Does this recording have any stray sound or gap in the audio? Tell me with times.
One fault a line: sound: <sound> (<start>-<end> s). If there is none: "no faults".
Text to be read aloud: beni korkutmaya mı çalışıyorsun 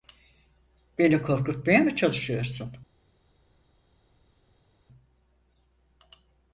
no faults